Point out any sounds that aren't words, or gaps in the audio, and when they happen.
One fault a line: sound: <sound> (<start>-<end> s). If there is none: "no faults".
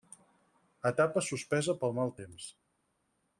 no faults